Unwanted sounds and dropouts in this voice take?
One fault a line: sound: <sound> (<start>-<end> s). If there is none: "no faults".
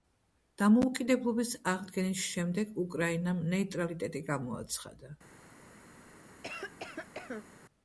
sound: cough (6.4-7.5 s)